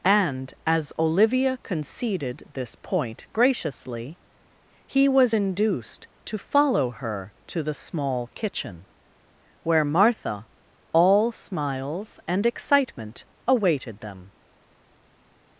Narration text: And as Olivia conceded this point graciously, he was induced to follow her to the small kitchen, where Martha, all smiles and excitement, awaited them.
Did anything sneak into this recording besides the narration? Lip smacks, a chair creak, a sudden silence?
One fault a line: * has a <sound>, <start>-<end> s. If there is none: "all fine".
all fine